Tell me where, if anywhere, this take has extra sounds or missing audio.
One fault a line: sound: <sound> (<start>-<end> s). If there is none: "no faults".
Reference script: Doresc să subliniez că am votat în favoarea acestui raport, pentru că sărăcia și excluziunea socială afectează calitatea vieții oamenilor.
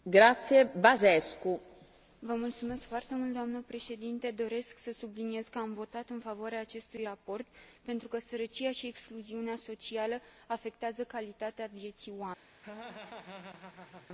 sound: laugh (12.6-14.1 s)